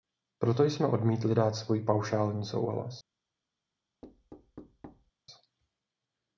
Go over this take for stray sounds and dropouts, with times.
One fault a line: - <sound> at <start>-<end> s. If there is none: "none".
- thud at 4.0-5.1 s